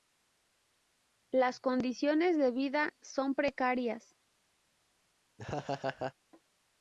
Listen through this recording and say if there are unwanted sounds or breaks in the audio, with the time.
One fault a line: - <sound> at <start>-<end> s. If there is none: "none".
- laugh at 5.4-6.1 s